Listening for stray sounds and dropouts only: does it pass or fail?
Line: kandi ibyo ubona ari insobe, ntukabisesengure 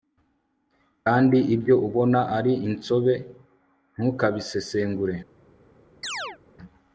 fail